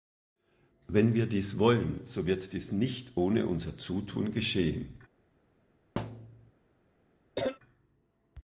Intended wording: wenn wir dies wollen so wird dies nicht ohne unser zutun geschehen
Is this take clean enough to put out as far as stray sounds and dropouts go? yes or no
no